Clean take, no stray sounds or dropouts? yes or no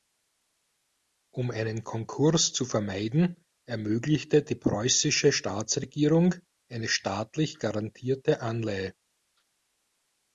yes